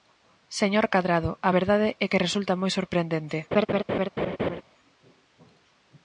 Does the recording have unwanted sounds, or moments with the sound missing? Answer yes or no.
yes